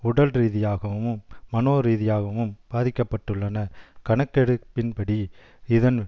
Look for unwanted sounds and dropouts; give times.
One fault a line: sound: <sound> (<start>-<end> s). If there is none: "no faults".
no faults